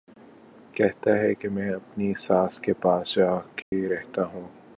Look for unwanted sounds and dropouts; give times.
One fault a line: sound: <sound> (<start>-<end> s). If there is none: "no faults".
sound: dropout (3.6-3.7 s)